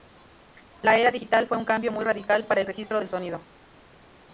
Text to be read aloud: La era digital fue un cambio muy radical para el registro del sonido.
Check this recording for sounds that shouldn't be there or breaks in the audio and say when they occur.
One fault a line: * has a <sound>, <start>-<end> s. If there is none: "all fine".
all fine